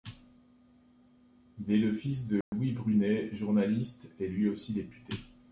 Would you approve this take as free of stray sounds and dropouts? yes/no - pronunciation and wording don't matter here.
no